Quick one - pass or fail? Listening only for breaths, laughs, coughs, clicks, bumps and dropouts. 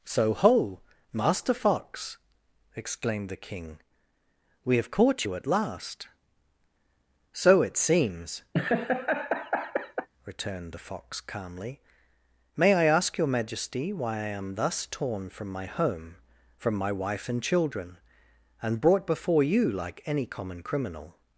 fail